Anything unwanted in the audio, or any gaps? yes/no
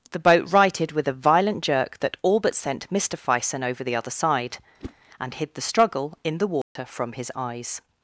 yes